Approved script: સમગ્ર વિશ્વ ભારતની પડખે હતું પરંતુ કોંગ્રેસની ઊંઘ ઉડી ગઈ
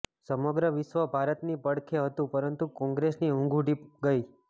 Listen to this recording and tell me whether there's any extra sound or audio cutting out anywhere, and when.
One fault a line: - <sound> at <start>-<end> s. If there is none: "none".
none